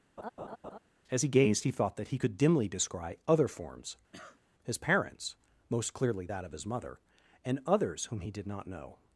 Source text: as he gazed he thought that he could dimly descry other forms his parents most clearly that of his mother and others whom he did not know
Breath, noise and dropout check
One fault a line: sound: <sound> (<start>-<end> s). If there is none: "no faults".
sound: laugh (0.2-0.8 s)
sound: cough (4.1-4.4 s)